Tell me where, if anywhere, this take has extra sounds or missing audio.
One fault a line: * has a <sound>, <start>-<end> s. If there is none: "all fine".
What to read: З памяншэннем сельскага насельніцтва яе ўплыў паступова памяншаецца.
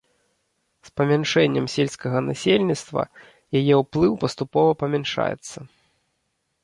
all fine